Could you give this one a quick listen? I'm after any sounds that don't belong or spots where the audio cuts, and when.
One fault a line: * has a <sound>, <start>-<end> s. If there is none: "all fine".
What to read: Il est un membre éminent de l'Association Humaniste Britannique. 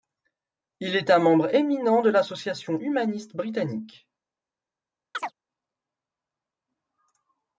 * has a chirp, 5.1-5.3 s